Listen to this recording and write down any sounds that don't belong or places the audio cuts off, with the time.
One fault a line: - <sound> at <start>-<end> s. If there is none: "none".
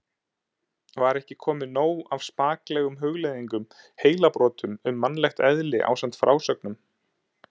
none